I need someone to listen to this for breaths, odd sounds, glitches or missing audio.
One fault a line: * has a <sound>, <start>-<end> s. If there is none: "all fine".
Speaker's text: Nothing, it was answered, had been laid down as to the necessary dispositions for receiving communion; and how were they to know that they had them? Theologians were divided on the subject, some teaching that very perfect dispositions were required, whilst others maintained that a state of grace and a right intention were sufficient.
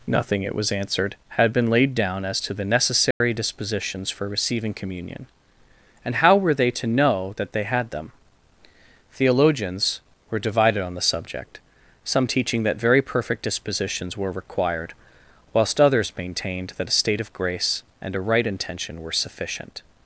* has a dropout, 3.1-3.2 s